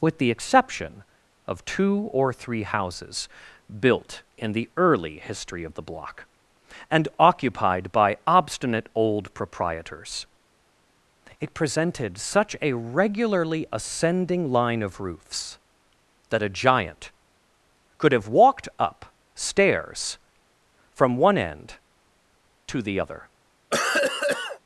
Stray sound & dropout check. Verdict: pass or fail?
fail